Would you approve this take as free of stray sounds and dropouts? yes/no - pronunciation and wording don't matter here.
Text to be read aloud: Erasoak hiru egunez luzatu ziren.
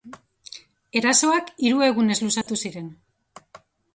no